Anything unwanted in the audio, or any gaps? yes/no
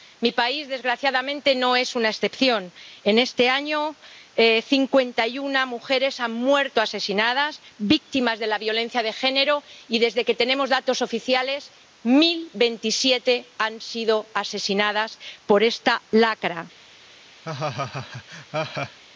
yes